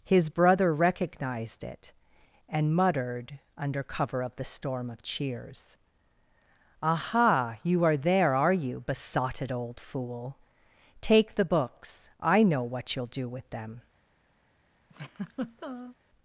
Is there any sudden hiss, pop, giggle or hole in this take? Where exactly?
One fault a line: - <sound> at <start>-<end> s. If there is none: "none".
- laugh at 14.9-16.0 s